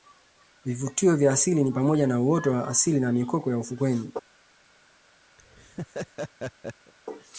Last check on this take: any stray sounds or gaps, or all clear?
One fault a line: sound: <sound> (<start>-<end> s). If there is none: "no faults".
sound: laugh (5.4-6.9 s)